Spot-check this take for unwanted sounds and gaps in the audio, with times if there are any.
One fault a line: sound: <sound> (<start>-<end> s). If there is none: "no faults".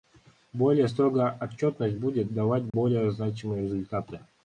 sound: dropout (2.7-2.7 s)